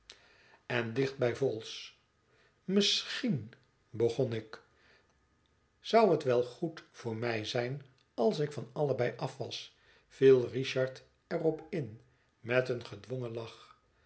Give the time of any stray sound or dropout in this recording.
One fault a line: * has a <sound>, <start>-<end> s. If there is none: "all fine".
all fine